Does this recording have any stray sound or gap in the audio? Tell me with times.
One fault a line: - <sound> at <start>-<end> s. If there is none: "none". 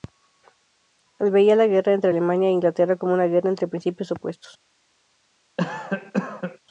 - cough at 5.6-6.6 s